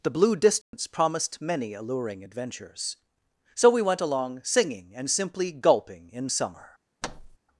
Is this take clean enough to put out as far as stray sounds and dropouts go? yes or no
no